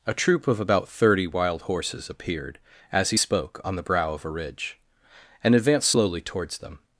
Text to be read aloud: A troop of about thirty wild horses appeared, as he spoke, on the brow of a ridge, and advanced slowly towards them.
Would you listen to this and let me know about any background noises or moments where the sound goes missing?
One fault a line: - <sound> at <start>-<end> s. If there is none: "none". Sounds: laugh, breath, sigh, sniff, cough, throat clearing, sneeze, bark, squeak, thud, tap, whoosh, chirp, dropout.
none